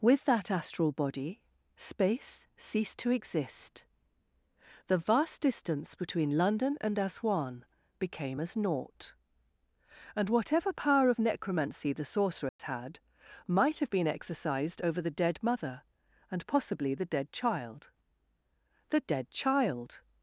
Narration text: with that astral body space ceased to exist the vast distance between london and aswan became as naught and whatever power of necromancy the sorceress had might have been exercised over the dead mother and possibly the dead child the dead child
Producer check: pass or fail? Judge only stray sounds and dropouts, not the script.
fail